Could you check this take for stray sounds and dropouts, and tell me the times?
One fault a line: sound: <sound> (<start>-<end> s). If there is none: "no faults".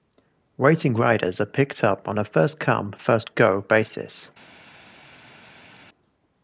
no faults